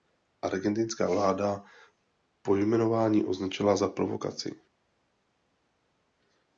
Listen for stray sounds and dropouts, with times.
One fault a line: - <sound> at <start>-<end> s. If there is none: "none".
none